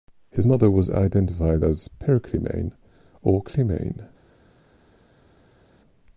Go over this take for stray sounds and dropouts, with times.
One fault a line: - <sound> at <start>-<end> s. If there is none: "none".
none